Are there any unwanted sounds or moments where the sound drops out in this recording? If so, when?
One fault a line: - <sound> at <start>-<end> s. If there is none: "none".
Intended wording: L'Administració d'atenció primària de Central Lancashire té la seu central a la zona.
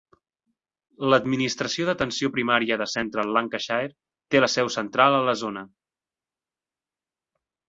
none